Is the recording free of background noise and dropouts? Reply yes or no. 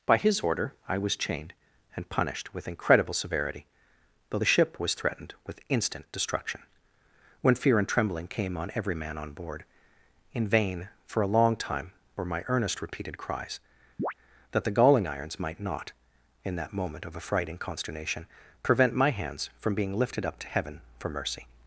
no